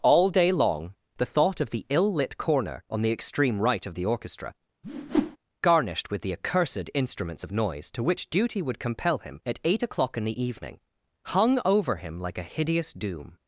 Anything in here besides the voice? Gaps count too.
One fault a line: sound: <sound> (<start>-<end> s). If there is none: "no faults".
sound: whoosh (4.8-5.4 s)